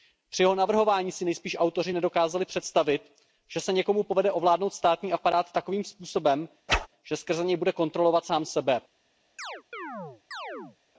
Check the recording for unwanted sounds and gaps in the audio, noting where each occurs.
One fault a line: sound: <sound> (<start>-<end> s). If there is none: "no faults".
sound: whoosh (6.7-6.9 s)
sound: chirp (9.4-10.8 s)